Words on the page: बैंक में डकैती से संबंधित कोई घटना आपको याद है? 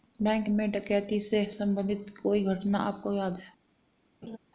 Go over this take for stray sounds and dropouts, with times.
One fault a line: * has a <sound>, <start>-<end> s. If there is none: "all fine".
* has a laugh, 4.2-4.4 s